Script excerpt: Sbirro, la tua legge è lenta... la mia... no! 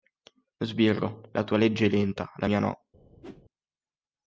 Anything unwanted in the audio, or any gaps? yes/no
yes